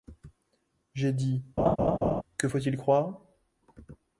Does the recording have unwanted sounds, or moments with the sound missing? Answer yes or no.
yes